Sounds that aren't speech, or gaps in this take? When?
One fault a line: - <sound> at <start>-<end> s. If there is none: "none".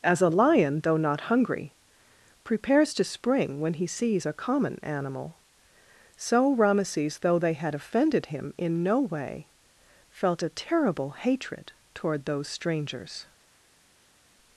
none